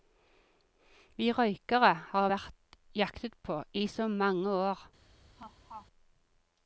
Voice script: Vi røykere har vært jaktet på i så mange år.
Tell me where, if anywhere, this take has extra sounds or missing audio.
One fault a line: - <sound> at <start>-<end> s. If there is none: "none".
- laugh at 5.4-5.9 s